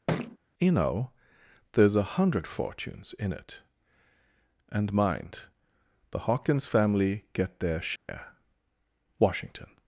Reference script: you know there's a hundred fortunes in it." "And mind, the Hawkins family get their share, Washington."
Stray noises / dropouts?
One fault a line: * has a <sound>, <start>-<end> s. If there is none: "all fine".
* has a thud, 0.1-0.4 s
* has a dropout, 8.0-8.1 s